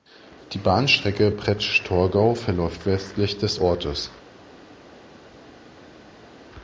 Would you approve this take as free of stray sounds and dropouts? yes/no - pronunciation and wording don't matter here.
yes